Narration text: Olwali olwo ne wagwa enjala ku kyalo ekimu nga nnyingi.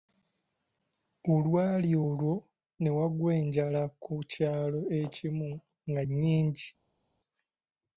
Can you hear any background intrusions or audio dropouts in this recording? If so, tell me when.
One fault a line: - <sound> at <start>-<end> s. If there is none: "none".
none